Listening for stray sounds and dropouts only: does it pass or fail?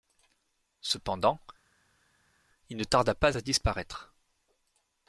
pass